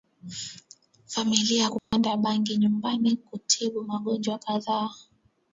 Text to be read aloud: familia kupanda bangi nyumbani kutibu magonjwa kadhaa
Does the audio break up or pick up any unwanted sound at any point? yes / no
yes